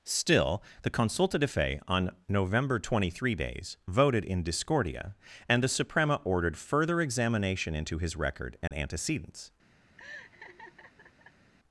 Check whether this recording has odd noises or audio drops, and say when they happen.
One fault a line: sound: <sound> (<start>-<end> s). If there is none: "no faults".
sound: dropout (8.7-8.7 s)
sound: laugh (10.0-11.5 s)